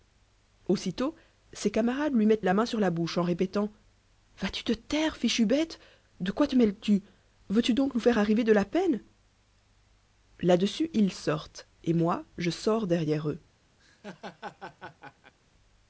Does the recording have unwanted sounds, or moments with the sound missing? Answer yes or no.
yes